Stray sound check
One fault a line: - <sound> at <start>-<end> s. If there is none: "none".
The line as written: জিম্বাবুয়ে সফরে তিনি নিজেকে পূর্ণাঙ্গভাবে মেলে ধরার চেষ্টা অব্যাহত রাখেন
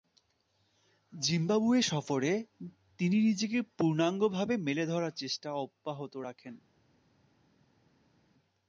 none